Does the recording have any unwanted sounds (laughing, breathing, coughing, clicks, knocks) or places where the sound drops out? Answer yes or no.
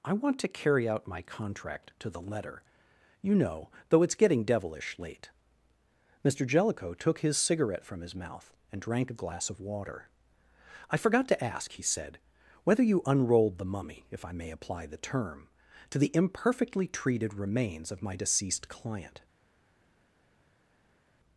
no